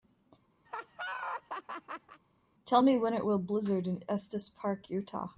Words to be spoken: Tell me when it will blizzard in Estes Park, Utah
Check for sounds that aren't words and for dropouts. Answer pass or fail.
fail